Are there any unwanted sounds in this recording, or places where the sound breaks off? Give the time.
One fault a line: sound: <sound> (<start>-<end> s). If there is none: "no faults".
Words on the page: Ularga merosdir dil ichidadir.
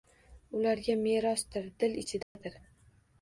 sound: dropout (2.2-2.4 s)